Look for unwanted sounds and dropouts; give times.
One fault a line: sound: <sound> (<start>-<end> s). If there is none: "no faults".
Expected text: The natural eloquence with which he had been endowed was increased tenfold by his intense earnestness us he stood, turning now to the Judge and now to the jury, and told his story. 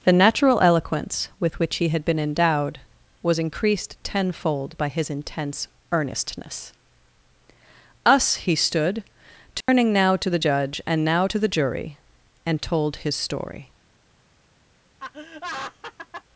sound: dropout (9.6-9.7 s)
sound: laugh (15.0-16.2 s)